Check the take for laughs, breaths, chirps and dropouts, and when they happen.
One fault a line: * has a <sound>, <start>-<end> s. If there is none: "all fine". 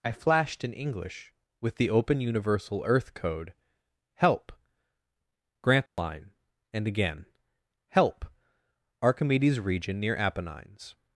* has a dropout, 5.9-6.0 s